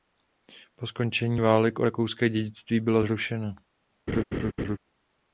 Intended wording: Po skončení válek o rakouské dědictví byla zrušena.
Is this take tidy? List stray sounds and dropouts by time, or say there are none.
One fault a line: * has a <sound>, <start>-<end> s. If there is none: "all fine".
* has a laugh, 4.1-4.8 s